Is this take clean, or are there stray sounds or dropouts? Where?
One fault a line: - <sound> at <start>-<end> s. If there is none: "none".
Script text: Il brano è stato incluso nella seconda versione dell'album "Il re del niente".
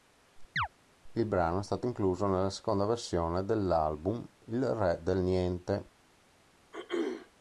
- chirp at 0.6-0.7 s
- throat clearing at 6.7-7.3 s